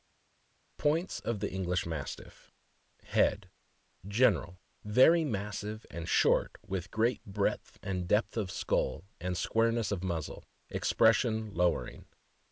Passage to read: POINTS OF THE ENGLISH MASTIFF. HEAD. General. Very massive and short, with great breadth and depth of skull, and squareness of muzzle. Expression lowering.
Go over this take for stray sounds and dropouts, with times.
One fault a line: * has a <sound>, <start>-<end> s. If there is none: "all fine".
all fine